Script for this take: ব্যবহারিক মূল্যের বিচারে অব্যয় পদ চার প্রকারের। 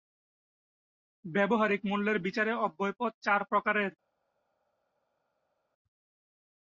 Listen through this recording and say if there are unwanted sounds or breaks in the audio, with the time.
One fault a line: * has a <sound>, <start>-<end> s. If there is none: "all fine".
all fine